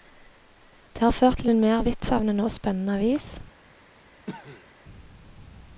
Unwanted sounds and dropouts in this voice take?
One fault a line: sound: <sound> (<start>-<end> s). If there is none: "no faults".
sound: cough (4.3-4.7 s)